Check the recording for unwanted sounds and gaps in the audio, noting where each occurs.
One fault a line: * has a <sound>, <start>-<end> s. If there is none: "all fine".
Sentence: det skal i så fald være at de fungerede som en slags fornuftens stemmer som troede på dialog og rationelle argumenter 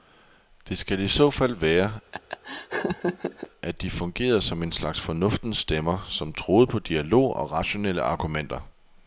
* has a laugh, 2.1-3.5 s